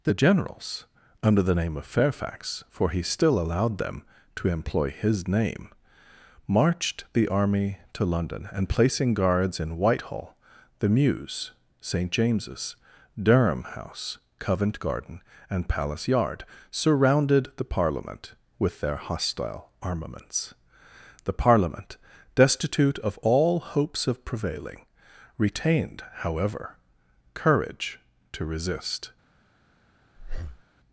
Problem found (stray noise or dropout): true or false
true